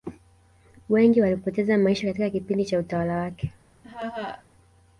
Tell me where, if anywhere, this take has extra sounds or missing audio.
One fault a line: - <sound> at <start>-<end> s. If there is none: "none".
- laugh at 3.8-4.4 s